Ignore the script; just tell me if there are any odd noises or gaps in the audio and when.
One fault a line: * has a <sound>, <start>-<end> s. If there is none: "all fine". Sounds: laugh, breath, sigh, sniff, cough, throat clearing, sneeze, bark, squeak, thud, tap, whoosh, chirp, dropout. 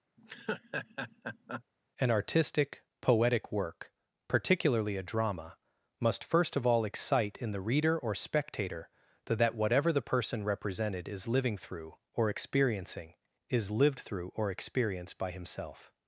* has a laugh, 0.2-1.6 s